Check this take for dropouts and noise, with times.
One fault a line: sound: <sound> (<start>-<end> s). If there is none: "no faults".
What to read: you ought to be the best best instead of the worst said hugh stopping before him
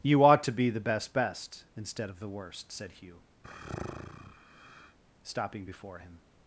sound: sigh (3.4-5.0 s)